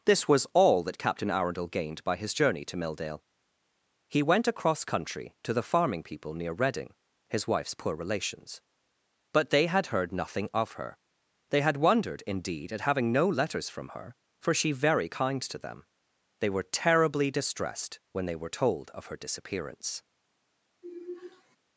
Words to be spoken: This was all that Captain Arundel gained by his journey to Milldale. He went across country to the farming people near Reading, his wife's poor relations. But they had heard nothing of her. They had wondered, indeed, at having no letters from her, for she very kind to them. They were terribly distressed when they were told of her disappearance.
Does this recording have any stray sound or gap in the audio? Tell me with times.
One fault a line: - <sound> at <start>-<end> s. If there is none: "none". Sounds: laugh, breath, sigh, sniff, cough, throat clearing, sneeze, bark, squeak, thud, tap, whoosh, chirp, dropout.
- sigh at 20.8-21.6 s